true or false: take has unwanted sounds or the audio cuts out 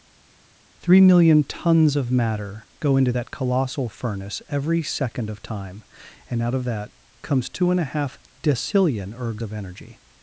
false